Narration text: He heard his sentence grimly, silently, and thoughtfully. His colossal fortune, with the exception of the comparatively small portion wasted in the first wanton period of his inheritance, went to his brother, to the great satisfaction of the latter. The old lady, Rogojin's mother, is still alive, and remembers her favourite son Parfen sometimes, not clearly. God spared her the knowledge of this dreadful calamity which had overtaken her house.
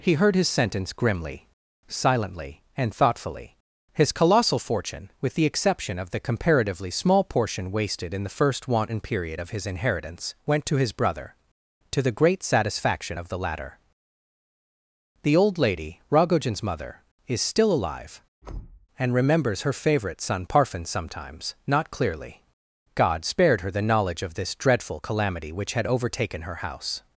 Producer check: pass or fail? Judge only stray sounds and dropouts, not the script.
fail